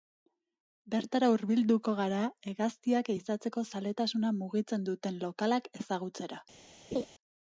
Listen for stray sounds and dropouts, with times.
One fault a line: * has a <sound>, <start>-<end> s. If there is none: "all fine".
* has a laugh, 6.9-7.1 s